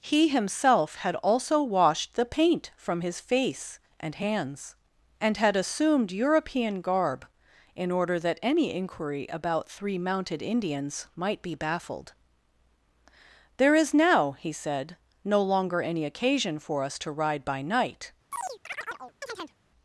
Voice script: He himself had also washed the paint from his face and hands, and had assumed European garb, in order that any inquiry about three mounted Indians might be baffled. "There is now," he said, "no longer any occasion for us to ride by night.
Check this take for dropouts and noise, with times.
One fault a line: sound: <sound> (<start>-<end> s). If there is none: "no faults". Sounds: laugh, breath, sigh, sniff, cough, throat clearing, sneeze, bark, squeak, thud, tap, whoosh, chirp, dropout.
sound: chirp (18.3-19.6 s)